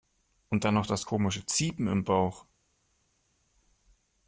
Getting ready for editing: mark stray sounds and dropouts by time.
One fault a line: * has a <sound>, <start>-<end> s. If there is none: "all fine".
all fine